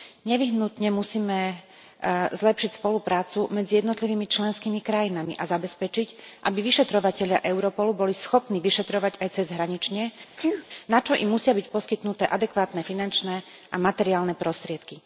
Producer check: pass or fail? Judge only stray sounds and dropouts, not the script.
fail